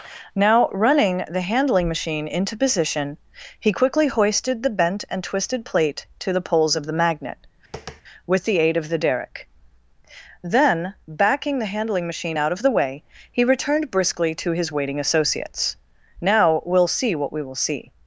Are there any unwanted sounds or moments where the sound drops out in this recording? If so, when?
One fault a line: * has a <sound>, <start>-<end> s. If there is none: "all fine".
* has a tap, 7.7-8.0 s